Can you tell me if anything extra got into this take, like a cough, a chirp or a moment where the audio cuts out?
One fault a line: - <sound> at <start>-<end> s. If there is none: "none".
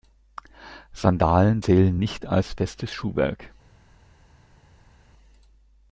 none